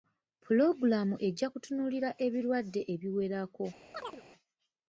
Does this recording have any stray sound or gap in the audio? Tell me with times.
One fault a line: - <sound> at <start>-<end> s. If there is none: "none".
- chirp at 3.9-4.2 s